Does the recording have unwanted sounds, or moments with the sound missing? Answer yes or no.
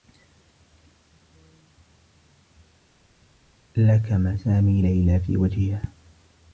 no